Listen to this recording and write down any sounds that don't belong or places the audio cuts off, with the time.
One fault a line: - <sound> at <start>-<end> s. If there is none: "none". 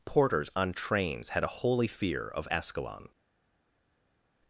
none